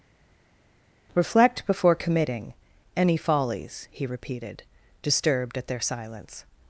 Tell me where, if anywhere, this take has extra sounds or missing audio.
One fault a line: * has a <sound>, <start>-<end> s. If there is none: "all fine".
all fine